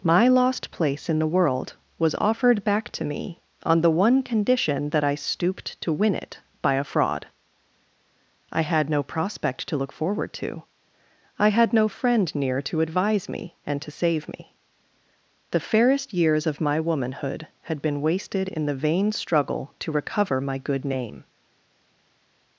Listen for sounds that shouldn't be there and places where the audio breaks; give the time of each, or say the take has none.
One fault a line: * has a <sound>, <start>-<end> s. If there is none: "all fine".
all fine